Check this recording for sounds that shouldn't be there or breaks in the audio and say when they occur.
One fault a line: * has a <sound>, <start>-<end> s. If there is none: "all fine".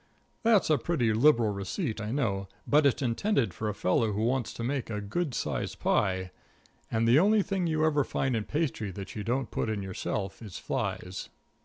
all fine